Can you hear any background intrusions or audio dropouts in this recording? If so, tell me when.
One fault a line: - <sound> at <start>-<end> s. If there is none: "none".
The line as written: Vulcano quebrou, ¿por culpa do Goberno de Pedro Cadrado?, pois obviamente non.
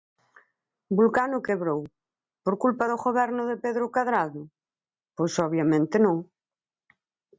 none